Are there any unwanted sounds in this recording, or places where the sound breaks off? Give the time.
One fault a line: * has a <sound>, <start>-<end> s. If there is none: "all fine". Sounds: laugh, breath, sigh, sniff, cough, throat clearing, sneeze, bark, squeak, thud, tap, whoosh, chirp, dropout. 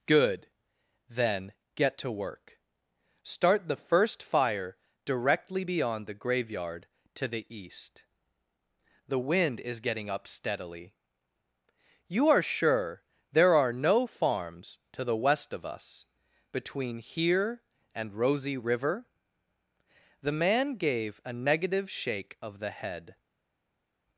all fine